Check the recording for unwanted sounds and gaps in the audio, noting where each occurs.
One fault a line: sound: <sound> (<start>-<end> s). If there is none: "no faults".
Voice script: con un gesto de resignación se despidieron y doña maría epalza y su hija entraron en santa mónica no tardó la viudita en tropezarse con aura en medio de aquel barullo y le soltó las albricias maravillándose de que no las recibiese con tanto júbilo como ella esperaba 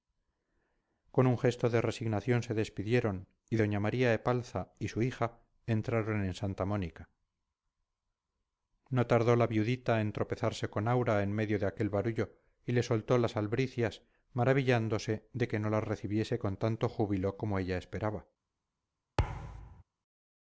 sound: thud (19.2-19.8 s)